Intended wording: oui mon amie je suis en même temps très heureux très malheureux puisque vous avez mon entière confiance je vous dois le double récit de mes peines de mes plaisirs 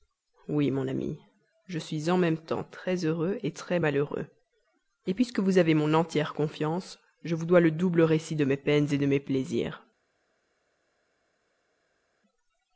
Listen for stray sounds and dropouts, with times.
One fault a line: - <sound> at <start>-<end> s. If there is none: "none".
none